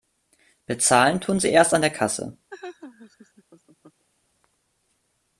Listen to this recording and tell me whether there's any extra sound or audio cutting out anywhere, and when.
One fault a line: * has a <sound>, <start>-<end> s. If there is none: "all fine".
* has a laugh, 2.5-4.0 s